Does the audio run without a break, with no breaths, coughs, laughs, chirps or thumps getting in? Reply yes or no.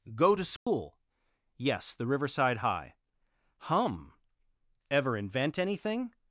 no